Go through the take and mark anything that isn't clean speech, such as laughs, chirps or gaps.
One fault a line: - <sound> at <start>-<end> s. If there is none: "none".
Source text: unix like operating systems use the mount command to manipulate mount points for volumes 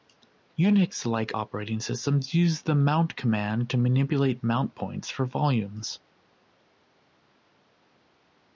none